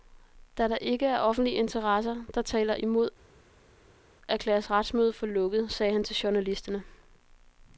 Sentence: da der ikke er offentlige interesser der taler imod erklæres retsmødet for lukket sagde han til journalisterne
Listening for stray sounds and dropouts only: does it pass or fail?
pass